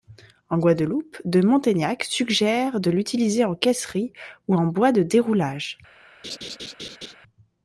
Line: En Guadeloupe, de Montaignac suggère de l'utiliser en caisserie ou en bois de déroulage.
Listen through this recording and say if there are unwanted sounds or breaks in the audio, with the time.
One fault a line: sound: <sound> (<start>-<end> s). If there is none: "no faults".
sound: laugh (6.2-7.2 s)